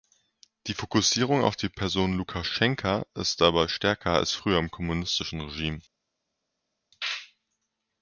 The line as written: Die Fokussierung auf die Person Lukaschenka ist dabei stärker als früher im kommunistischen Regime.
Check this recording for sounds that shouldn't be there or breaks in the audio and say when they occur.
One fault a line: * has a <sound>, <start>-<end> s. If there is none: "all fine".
all fine